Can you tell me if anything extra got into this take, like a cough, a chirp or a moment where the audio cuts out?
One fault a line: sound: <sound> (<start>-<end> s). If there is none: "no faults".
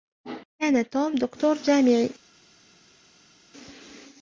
no faults